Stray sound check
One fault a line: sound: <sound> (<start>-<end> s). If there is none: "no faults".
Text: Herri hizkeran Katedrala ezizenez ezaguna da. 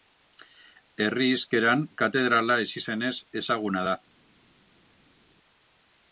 no faults